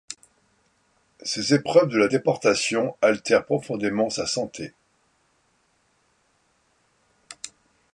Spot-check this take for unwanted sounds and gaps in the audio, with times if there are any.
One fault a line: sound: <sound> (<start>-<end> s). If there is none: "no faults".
no faults